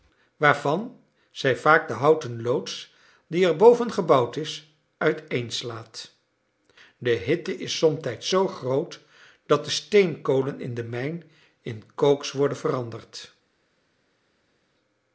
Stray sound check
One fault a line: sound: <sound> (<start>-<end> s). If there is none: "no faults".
no faults